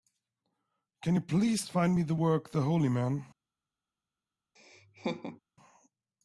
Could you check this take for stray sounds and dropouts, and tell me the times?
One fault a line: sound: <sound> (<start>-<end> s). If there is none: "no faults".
sound: laugh (4.6-5.4 s)